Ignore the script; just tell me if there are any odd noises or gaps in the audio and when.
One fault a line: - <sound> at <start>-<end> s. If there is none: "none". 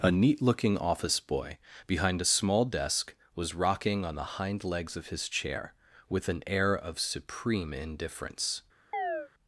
- chirp at 8.9-9.3 s